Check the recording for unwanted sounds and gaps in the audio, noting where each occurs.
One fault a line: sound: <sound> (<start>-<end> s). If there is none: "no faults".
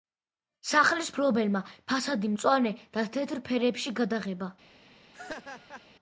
sound: laugh (5.1-5.9 s)